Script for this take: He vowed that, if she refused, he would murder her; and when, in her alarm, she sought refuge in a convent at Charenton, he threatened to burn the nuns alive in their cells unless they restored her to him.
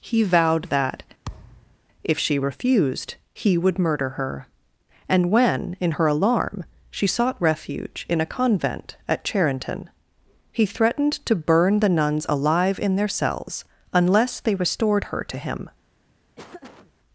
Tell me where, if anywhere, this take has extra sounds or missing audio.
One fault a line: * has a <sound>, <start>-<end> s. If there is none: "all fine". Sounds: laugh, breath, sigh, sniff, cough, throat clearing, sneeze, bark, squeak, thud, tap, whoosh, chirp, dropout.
* has a thud, 1.3-1.8 s
* has a laugh, 16.4-16.9 s